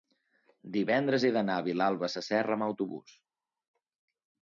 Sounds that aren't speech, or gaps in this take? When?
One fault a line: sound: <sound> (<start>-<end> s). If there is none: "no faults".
no faults